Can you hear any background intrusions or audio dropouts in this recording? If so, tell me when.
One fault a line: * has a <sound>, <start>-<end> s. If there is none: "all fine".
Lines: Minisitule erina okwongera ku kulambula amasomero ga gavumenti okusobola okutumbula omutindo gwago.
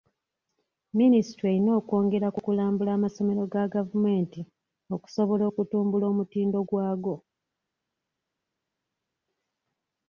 all fine